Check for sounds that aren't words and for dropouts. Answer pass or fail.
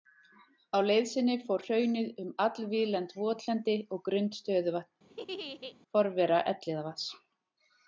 fail